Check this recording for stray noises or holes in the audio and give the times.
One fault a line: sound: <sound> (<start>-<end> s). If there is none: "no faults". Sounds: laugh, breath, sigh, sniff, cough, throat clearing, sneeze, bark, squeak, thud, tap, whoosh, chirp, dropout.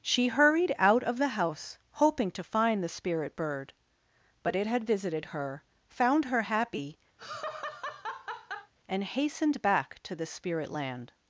sound: laugh (7.2-8.7 s)